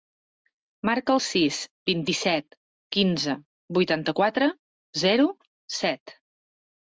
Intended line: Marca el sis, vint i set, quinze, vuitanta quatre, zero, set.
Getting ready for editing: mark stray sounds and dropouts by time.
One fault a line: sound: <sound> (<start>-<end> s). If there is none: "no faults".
no faults